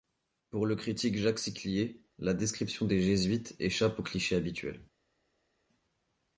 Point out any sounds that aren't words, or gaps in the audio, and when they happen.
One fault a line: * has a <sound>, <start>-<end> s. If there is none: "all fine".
all fine